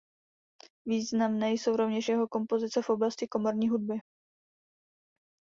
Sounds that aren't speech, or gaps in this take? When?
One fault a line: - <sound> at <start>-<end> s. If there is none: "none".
none